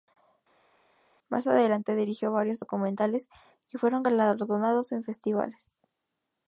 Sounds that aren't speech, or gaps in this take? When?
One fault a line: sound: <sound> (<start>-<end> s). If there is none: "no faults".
no faults